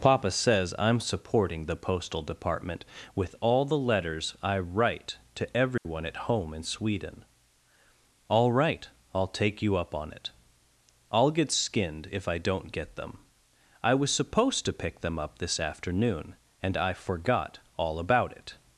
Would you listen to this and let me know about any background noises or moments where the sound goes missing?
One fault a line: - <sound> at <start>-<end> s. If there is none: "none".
- dropout at 5.8-5.9 s